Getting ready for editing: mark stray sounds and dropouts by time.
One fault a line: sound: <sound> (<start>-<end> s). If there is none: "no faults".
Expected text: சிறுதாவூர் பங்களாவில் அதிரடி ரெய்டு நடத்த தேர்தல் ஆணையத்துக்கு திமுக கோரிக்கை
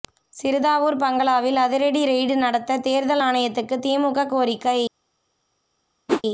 sound: whoosh (6.1-6.2 s)